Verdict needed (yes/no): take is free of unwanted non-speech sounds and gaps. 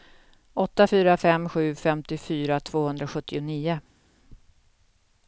yes